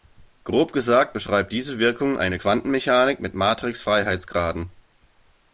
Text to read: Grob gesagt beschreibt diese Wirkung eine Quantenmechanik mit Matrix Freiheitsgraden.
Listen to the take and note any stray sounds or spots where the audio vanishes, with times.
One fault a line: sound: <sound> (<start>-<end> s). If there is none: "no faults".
no faults